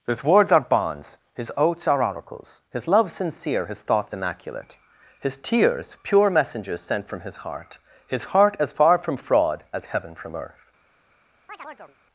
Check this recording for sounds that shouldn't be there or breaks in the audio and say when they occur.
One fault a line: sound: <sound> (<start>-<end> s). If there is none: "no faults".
sound: chirp (11.5-12.0 s)